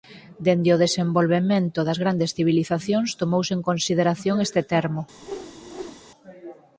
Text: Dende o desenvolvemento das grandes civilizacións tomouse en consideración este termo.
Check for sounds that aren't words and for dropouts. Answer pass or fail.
fail